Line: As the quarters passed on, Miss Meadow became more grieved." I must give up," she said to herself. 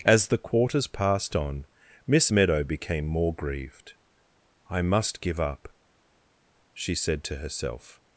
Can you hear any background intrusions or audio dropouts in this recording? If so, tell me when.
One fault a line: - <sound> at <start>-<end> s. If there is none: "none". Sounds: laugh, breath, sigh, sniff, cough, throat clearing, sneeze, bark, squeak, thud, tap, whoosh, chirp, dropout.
none